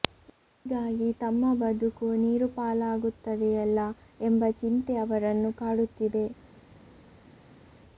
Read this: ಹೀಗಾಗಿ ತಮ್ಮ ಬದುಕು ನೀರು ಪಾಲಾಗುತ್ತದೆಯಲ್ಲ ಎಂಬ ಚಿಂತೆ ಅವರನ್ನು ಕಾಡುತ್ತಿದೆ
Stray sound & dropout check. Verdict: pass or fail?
pass